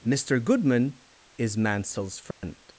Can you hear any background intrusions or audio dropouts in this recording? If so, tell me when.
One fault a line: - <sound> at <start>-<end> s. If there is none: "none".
- dropout at 2.3-2.4 s